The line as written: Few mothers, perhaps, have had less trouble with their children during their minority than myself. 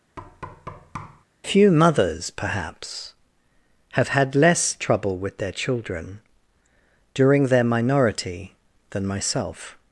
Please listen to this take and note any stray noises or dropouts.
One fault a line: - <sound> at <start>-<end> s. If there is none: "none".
- thud at 0.2-1.2 s